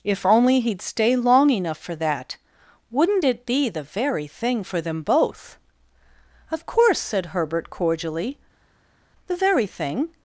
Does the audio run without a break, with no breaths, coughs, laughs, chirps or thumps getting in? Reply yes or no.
yes